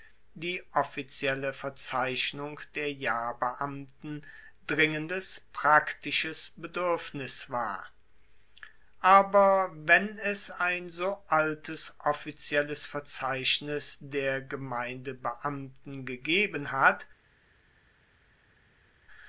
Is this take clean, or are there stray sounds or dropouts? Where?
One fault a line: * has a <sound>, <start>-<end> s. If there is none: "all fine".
all fine